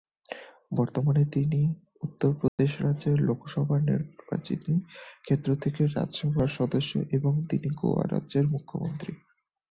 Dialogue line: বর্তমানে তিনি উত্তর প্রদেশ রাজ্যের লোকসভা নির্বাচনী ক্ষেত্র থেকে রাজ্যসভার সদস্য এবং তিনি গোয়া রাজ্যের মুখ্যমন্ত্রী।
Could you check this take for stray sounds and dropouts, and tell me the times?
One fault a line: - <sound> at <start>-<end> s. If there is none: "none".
- dropout at 2.5-2.6 s